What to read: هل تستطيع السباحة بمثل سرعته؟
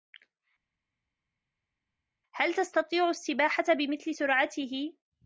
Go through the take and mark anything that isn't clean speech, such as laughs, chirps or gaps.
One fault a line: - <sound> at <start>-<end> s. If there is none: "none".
none